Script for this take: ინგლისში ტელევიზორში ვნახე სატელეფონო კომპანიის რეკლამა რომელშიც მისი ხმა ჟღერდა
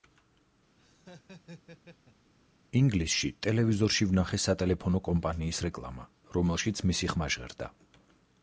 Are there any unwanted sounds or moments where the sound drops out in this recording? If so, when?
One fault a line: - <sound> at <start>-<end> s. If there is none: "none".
- laugh at 0.8-2.3 s